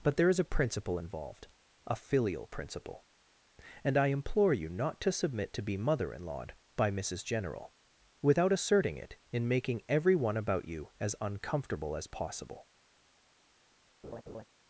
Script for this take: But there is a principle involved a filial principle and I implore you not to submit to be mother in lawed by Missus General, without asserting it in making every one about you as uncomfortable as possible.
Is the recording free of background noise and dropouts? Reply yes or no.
no